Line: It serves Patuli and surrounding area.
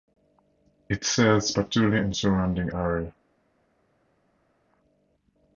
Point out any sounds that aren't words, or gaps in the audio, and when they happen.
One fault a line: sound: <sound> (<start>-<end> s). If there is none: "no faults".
no faults